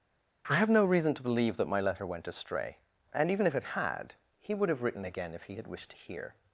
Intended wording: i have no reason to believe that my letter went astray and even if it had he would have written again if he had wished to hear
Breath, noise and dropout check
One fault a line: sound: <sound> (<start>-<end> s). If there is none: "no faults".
no faults